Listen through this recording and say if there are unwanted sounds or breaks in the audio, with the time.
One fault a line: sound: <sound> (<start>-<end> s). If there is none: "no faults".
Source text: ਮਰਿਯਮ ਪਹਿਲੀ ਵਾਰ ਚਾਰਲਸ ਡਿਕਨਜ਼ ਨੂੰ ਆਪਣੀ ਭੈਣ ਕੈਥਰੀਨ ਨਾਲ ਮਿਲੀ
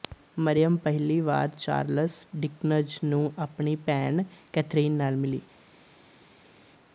no faults